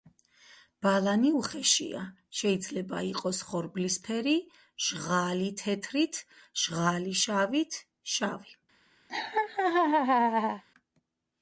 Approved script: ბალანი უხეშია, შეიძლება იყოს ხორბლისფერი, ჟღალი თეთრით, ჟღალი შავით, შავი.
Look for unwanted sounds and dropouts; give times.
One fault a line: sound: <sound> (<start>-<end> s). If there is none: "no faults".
sound: laugh (9.1-10.6 s)